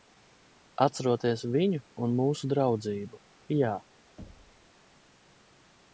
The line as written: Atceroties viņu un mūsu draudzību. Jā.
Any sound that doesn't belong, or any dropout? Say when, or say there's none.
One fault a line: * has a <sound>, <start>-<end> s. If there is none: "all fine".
* has a thud, 4.2-4.7 s